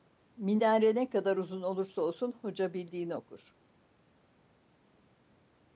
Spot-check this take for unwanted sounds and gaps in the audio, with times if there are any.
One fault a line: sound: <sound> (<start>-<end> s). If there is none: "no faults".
no faults